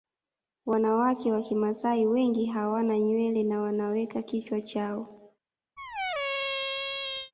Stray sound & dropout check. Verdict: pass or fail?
fail